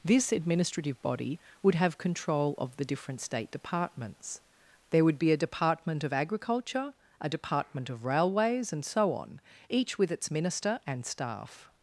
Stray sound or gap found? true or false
false